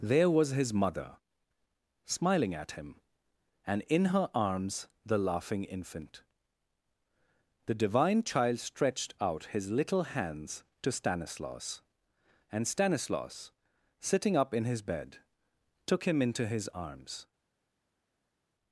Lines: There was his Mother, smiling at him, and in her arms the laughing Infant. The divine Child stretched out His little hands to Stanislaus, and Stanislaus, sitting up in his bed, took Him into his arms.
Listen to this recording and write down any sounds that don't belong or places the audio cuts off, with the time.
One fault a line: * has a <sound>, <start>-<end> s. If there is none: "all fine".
all fine